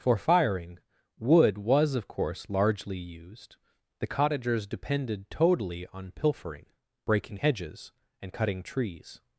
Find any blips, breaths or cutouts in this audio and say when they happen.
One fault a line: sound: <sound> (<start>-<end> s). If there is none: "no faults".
no faults